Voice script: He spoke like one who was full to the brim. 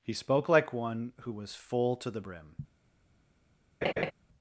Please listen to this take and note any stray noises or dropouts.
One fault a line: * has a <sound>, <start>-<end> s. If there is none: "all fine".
* has a laugh, 3.8-4.1 s